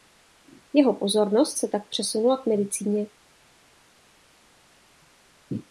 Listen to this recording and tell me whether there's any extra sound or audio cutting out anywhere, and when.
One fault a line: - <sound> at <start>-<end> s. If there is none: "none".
none